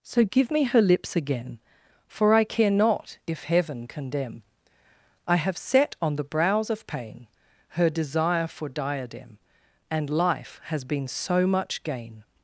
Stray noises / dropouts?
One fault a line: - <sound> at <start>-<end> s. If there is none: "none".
none